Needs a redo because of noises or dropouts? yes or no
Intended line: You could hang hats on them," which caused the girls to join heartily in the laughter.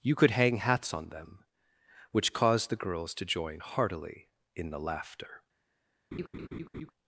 yes